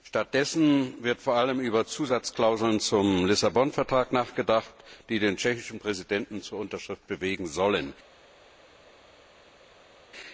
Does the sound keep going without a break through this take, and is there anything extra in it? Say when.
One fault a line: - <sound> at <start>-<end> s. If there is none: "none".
none